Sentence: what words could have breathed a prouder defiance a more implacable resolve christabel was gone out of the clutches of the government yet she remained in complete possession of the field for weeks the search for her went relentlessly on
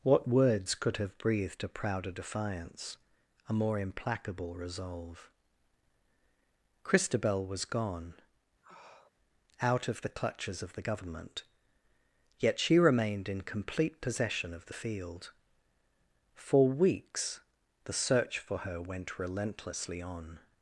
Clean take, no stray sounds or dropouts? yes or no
no